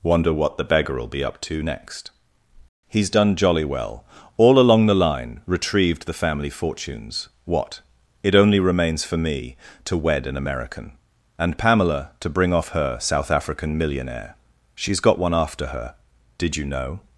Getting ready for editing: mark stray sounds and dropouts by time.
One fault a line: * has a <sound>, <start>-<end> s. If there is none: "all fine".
all fine